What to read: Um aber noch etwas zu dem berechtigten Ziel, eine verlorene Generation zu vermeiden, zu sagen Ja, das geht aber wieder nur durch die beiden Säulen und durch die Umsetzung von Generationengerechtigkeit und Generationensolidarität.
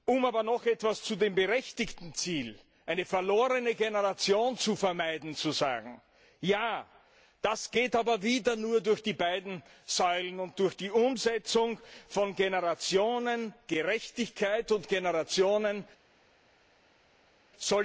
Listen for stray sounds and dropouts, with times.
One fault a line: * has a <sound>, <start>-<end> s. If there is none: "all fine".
all fine